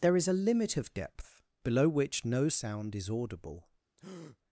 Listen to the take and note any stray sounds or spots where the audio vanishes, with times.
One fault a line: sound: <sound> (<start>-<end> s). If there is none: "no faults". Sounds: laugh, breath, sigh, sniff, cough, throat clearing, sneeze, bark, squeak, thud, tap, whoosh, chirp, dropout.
sound: breath (4.0-4.4 s)